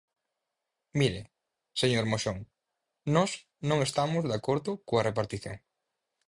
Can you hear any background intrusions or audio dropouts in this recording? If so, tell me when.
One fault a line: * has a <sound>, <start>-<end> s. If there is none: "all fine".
all fine